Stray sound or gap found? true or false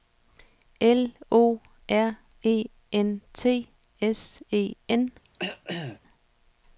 true